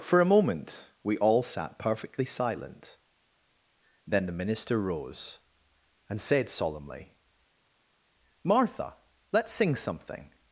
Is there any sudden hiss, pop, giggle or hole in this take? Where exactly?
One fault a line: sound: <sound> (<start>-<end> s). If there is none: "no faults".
no faults